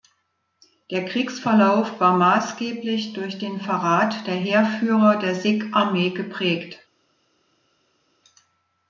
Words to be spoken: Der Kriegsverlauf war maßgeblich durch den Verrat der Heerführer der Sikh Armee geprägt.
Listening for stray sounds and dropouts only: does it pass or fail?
pass